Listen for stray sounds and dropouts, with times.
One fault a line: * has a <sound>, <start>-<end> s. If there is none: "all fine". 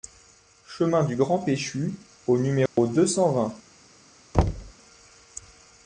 * has a dropout, 2.7-2.8 s
* has a thud, 4.3-4.7 s